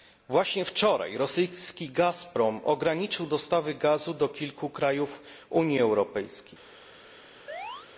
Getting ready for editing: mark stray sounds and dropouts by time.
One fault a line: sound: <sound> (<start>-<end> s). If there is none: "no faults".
sound: chirp (7.5-7.9 s)